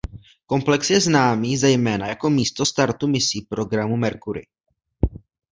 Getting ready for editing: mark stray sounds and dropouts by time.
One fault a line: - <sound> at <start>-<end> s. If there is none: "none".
none